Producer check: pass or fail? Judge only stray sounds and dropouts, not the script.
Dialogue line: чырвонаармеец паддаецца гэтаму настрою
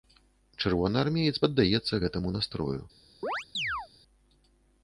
fail